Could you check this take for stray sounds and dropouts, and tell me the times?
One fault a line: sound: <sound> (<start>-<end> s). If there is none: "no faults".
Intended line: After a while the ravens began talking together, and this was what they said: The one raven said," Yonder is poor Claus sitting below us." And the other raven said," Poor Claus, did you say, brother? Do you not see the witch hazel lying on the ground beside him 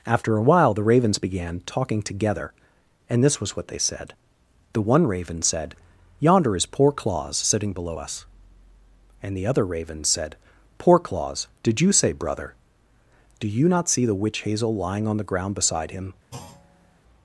sound: thud (16.3-17.0 s)